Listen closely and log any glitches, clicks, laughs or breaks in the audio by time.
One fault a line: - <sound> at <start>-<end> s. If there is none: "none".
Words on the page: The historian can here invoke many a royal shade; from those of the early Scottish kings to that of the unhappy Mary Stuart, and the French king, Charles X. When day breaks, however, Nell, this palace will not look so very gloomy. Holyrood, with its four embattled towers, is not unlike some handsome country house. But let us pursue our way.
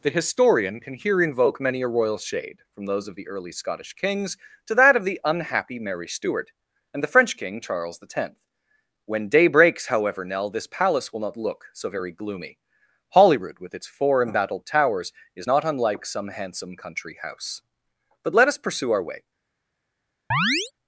- chirp at 20.3-20.7 s